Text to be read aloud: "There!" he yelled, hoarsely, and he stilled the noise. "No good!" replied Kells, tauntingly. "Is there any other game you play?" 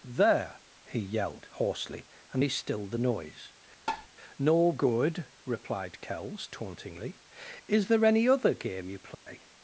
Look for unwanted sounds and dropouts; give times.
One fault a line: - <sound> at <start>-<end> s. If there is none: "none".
- tap at 3.9-4.1 s
- dropout at 9.1-9.3 s